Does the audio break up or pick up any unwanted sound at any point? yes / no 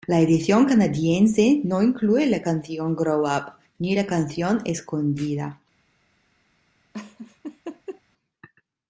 yes